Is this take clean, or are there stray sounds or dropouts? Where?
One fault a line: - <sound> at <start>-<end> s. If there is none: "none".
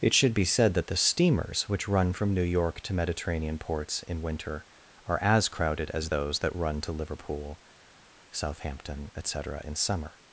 none